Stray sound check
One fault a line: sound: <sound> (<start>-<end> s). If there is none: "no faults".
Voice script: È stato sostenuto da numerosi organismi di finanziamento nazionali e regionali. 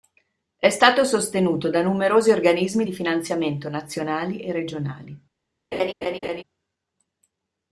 sound: laugh (5.7-6.4 s)